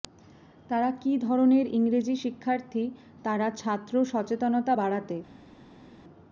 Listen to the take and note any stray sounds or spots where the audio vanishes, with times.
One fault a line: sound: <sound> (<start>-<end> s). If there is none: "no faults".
no faults